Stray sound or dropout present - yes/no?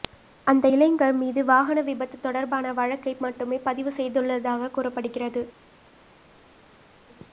no